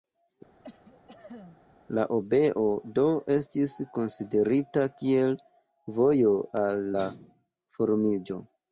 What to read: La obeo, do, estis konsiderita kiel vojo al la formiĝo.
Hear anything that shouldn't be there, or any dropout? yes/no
yes